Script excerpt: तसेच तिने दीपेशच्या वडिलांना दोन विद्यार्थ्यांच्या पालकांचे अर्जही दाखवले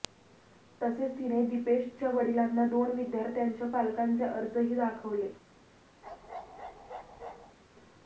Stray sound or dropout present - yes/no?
yes